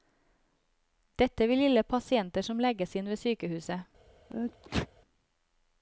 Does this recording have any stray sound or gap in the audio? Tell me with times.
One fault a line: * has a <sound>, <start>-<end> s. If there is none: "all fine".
* has a sneeze, 4.3-4.9 s